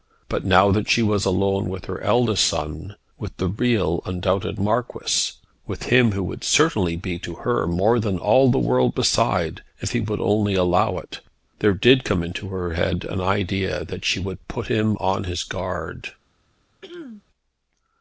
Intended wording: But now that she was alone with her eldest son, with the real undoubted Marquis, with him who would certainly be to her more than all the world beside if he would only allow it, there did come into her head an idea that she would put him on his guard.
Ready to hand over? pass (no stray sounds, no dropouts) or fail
fail